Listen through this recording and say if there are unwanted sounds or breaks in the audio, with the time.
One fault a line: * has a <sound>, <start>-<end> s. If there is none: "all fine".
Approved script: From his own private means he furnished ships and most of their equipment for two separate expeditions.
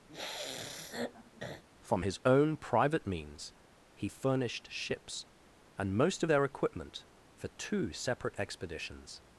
* has a sniff, 0.1-1.6 s